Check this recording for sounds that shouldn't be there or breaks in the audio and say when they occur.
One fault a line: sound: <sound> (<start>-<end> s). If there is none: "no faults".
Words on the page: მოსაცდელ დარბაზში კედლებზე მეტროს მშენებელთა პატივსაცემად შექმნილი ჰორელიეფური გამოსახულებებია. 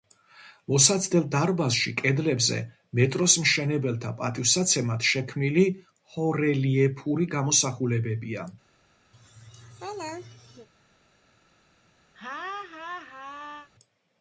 sound: laugh (9.1-10.7 s)
sound: laugh (12.1-13.7 s)